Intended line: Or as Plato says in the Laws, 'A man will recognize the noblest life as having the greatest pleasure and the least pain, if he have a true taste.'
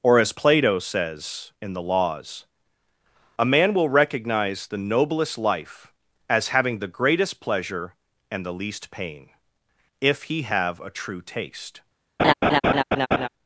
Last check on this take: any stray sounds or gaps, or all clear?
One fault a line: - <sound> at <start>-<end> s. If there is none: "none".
- laugh at 12.2-13.3 s